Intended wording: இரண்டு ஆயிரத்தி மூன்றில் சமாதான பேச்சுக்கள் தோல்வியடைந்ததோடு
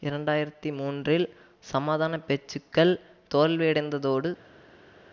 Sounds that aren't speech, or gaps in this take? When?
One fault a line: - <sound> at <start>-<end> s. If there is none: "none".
none